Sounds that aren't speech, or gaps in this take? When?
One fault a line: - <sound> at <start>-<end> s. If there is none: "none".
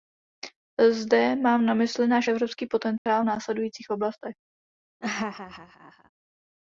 - dropout at 3.0-3.1 s
- laugh at 5.0-6.1 s